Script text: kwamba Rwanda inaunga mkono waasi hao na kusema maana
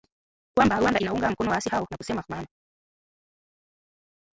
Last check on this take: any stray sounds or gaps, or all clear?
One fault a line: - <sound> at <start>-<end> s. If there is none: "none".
none